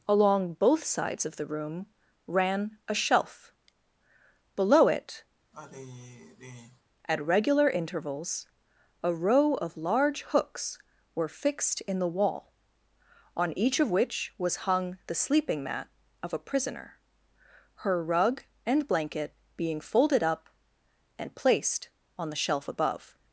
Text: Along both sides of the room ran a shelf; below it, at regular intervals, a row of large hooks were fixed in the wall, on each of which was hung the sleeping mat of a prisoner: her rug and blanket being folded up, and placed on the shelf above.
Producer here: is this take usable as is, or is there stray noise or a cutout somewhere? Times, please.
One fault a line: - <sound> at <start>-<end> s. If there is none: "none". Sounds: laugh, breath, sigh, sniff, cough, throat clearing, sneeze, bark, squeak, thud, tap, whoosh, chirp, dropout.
- sigh at 5.5-6.8 s